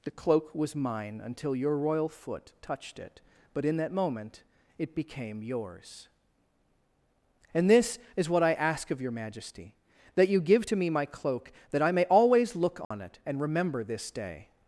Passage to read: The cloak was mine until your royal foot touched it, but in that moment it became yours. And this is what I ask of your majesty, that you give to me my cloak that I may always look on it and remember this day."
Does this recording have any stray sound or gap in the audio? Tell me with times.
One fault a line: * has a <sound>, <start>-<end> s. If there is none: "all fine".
* has a dropout, 12.8-12.9 s